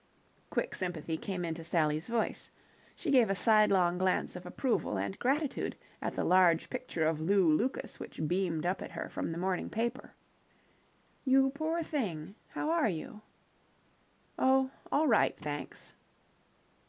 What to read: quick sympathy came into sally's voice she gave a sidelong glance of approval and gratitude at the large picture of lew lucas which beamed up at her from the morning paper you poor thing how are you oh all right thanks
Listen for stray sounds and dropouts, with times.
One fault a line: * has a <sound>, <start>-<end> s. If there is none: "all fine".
all fine